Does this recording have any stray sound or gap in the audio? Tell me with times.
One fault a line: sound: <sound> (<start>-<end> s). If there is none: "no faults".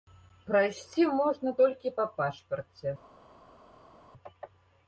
no faults